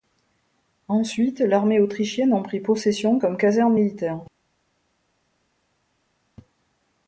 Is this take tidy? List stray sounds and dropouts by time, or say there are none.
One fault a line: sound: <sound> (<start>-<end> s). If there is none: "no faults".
no faults